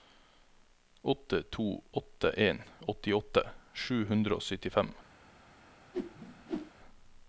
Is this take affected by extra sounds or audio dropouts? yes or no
yes